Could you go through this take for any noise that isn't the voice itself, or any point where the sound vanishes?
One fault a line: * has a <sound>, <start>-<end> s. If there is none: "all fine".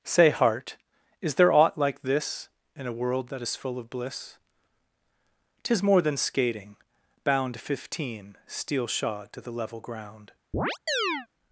* has a chirp, 10.5-11.3 s